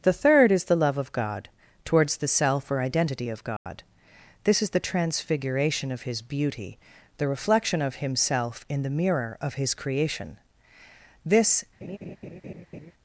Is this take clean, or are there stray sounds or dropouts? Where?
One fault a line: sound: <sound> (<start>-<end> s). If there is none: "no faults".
sound: dropout (3.6-3.7 s)
sound: laugh (11.8-12.9 s)